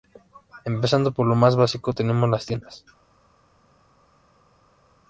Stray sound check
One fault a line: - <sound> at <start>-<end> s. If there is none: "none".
none